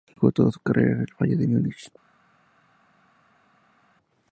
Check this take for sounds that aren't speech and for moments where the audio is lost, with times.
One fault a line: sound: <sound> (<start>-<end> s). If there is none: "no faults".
no faults